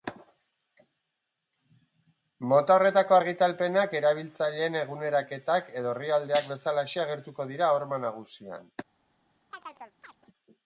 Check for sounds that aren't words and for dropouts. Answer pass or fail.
fail